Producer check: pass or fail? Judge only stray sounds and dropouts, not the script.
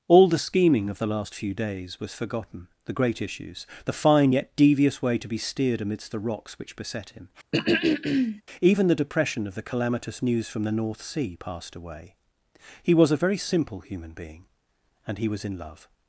fail